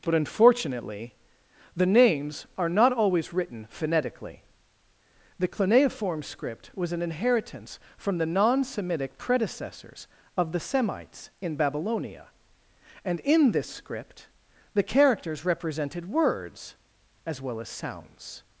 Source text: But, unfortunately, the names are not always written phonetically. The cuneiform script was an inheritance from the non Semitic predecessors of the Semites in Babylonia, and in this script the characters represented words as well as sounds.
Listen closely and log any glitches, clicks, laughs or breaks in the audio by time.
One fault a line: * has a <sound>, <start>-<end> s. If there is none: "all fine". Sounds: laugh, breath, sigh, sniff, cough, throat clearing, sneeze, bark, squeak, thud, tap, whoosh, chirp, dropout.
all fine